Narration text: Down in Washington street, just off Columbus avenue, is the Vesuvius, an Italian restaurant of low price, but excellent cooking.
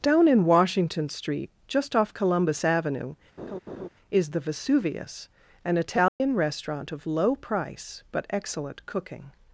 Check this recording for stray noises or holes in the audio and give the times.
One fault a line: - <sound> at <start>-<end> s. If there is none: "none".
- laugh at 3.4-3.9 s
- dropout at 6.1-6.2 s